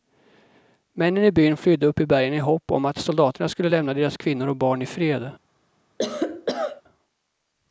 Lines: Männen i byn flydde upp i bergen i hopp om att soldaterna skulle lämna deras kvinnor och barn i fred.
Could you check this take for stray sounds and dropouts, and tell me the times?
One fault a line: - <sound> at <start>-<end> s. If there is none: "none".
- cough at 6.0-6.8 s